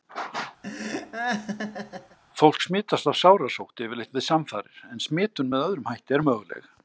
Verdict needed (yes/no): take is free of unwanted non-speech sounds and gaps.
no